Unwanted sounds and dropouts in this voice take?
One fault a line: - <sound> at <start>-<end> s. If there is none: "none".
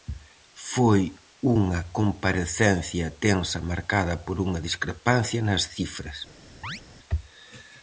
- chirp at 6.6-6.8 s